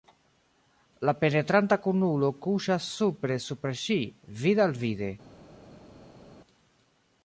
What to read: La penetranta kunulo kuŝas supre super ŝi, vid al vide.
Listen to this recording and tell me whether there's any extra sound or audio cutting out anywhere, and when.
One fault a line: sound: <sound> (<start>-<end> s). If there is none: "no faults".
no faults